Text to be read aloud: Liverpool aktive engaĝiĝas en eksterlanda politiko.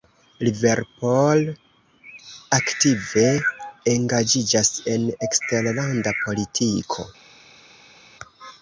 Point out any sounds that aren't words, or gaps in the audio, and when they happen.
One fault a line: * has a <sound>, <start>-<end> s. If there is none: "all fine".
all fine